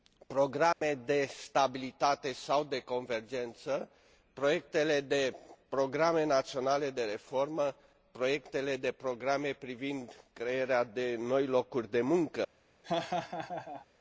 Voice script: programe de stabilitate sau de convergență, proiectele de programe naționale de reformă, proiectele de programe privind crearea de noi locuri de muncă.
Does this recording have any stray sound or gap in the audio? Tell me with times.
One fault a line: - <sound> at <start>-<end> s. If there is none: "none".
- dropout at 0.7-0.8 s
- laugh at 12.8-13.9 s